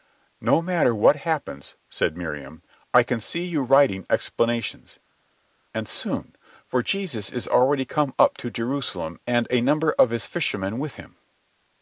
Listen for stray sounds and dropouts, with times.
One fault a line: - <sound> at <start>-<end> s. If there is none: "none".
none